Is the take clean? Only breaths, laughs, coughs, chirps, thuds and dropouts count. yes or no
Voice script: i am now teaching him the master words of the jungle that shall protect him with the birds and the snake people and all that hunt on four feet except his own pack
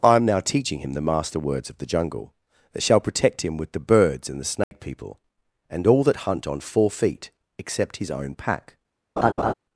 no